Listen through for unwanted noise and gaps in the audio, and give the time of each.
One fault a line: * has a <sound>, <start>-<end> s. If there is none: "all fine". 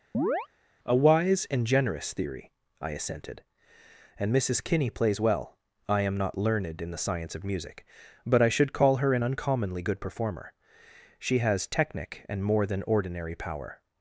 * has a chirp, 0.1-0.5 s